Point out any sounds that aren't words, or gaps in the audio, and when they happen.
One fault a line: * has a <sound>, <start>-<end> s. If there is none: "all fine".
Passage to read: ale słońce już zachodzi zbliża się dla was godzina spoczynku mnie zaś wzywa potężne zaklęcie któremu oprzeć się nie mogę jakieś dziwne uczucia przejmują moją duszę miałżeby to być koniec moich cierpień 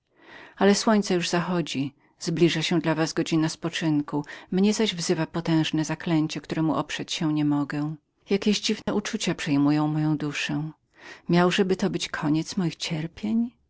* has a dropout, 8.8-8.9 s